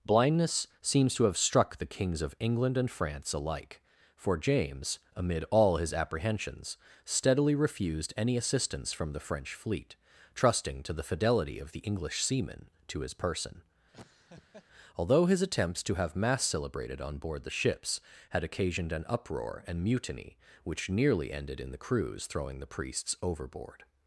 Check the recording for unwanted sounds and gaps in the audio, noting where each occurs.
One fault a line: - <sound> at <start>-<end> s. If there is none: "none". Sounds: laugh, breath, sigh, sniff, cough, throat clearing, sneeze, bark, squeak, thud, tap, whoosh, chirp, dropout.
- laugh at 13.9-14.7 s